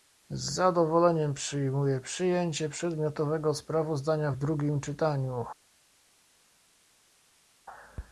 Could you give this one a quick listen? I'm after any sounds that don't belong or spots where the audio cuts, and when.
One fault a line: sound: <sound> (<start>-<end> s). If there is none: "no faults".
no faults